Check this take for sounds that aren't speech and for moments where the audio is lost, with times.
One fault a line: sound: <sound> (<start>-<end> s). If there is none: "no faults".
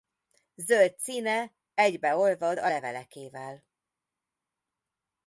no faults